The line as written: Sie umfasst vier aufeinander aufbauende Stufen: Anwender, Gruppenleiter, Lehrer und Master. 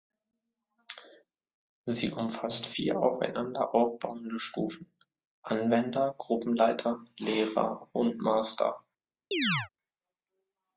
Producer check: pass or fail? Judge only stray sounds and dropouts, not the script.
fail